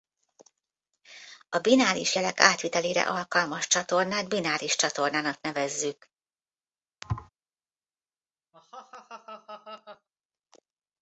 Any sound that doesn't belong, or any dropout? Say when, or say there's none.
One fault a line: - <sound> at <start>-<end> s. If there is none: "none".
- thud at 7.0-7.3 s
- laugh at 8.5-10.1 s